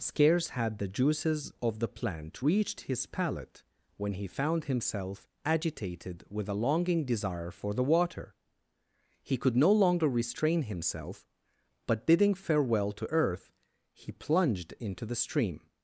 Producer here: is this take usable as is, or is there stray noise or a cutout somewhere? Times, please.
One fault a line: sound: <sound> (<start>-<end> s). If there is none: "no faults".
no faults